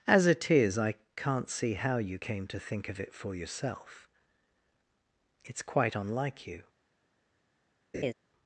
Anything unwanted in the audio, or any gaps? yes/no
yes